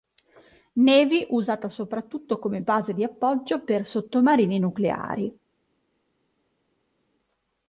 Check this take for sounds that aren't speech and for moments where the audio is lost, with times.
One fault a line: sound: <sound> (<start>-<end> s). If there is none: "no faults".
no faults